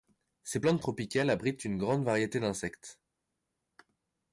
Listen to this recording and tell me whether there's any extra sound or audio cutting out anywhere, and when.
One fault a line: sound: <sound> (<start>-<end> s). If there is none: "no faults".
no faults